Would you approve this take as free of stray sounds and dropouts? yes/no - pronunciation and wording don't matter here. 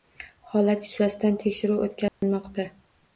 no